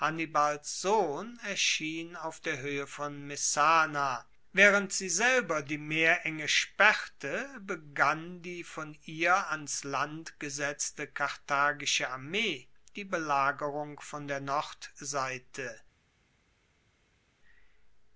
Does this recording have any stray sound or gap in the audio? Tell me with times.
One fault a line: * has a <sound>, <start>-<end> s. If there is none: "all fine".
all fine